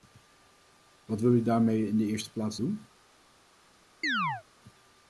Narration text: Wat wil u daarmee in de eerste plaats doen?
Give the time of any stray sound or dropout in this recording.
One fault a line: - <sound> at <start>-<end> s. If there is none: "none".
- chirp at 4.0-4.4 s